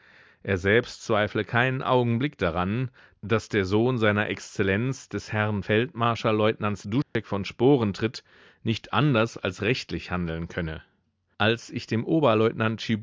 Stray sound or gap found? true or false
true